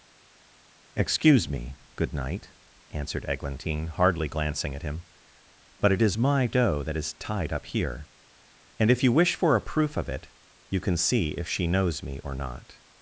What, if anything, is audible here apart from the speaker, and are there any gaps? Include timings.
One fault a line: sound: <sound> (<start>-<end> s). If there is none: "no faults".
no faults